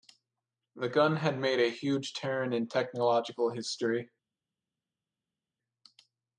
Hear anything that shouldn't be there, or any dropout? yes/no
no